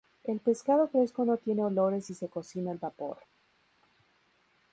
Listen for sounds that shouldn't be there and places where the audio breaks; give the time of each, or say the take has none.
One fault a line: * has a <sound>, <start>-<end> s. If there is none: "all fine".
all fine